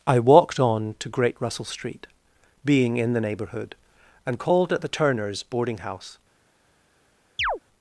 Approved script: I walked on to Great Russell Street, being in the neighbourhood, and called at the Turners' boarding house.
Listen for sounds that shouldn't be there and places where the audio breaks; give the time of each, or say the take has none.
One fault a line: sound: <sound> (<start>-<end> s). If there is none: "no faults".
sound: chirp (7.4-7.6 s)